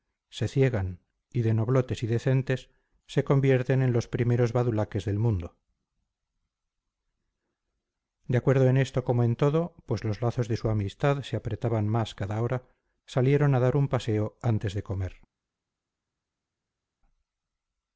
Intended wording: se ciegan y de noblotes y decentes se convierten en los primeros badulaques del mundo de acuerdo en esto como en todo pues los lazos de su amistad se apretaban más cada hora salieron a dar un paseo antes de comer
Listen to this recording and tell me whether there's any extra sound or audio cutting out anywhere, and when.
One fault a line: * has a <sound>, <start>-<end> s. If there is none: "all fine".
all fine